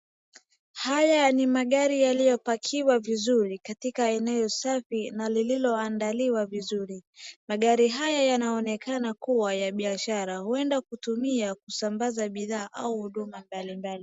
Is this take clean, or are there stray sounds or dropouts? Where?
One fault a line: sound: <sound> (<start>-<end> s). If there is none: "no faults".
no faults